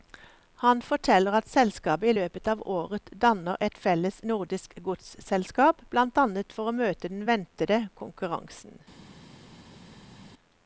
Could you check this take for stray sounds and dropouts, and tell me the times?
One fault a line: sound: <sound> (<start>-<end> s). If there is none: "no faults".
no faults